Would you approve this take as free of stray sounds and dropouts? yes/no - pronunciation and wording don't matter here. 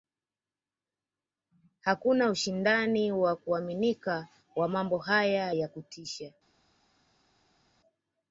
yes